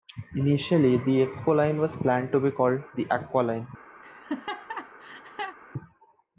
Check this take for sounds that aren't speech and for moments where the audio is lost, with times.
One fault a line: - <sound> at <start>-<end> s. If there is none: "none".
- laugh at 4.0-5.6 s